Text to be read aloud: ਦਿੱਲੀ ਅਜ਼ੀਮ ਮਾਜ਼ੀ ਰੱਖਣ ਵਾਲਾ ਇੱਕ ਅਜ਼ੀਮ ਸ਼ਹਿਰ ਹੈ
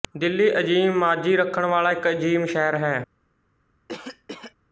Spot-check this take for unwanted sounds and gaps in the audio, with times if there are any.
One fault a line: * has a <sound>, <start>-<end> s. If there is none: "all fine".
* has a cough, 3.9-4.5 s